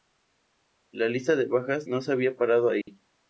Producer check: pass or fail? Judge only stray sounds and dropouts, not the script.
fail